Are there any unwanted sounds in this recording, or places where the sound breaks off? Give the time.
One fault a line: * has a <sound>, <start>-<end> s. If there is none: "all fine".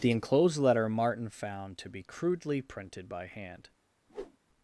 * has a whoosh, 4.1-4.4 s